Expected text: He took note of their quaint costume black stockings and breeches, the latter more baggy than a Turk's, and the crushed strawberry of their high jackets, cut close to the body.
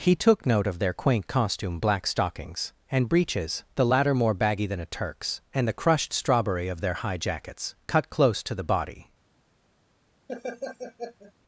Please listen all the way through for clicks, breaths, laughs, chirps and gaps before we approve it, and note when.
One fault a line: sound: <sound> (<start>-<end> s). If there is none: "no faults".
sound: laugh (10.3-11.3 s)